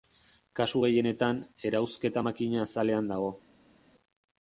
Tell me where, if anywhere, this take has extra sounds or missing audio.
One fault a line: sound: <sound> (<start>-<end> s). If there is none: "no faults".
no faults